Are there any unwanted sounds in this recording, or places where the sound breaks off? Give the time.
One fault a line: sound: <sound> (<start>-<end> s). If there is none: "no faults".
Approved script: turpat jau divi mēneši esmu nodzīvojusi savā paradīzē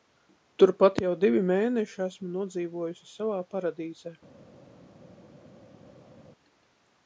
no faults